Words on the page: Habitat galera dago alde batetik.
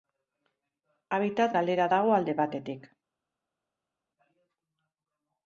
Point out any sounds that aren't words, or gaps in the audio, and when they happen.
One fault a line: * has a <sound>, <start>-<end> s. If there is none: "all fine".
all fine